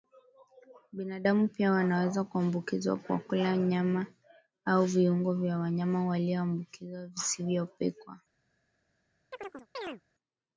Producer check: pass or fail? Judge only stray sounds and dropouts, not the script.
fail